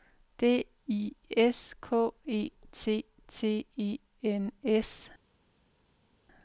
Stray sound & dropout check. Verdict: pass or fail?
pass